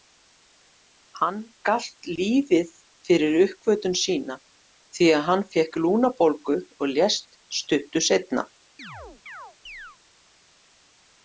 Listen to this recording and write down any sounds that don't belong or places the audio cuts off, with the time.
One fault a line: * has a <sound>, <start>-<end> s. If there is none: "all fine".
* has a chirp, 8.8-10.0 s